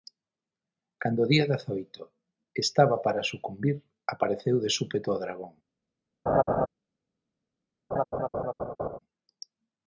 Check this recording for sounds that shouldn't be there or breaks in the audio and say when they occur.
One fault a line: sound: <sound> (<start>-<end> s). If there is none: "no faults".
sound: laugh (6.3-6.7 s)
sound: laugh (7.9-9.0 s)